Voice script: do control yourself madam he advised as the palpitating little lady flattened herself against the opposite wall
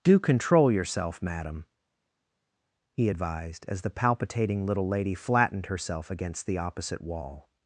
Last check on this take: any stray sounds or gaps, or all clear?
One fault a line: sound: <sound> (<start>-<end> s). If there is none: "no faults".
no faults